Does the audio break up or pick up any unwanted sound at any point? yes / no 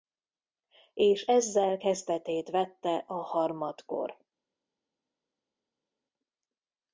no